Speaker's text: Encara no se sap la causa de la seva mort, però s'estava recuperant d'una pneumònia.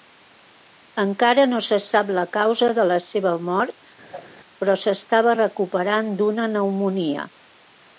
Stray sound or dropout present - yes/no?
yes